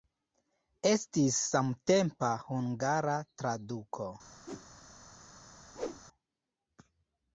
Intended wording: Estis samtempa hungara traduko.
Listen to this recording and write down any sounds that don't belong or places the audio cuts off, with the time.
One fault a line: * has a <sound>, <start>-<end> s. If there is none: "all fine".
* has a whoosh, 4.5-4.7 s
* has a whoosh, 5.7-6.0 s